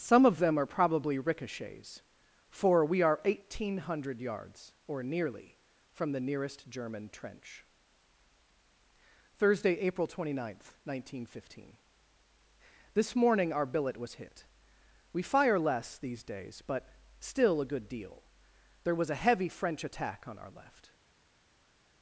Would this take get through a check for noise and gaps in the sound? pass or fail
pass